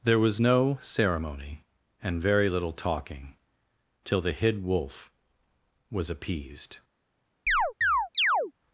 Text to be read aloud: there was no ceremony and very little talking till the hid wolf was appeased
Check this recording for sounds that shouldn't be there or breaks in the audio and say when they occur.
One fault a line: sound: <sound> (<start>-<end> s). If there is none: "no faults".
sound: chirp (7.5-8.5 s)